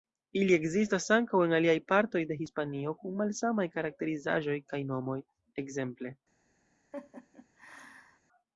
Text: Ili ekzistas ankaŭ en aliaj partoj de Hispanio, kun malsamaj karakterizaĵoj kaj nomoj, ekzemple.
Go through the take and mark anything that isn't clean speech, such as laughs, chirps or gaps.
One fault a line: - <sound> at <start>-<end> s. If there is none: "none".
- laugh at 6.9-8.2 s